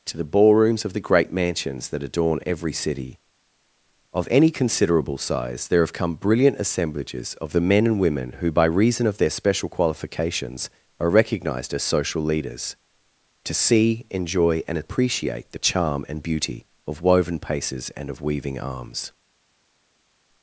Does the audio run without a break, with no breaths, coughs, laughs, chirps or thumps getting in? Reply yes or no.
yes